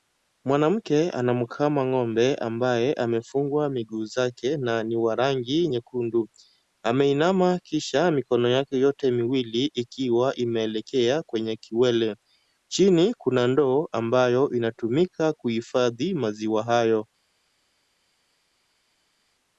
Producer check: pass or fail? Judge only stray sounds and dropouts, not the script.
pass